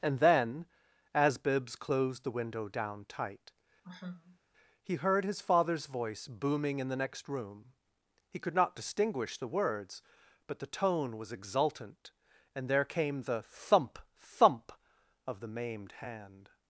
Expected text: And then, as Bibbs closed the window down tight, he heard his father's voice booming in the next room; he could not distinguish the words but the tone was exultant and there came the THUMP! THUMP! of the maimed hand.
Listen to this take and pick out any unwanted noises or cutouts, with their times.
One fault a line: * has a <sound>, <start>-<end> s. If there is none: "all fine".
* has a sigh, 3.8-4.4 s